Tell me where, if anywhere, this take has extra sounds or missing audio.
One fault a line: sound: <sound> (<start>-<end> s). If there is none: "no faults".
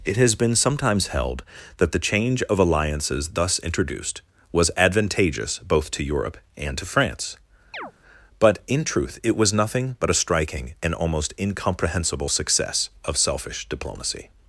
sound: chirp (7.7-7.9 s)